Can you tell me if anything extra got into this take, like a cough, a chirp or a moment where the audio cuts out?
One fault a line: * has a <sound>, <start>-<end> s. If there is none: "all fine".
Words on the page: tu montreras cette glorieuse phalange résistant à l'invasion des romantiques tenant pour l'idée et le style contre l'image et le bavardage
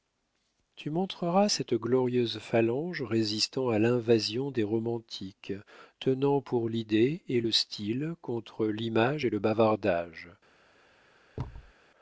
* has a thud, 11.4-11.7 s